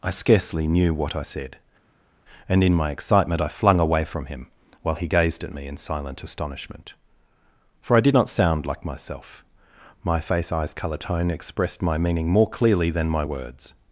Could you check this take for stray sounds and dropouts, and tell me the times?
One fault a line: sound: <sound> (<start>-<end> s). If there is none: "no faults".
no faults